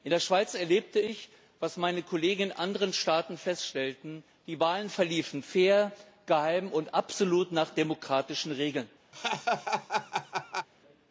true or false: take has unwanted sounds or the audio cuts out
true